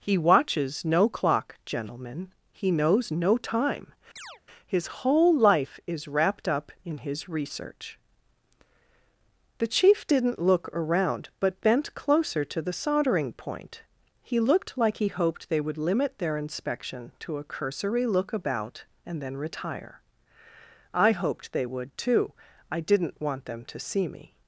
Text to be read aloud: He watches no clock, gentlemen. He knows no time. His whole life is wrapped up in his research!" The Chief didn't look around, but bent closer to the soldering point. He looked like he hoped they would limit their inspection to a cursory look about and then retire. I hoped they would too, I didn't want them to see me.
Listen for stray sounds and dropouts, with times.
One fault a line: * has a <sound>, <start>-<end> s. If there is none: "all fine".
* has a chirp, 4.2-4.4 s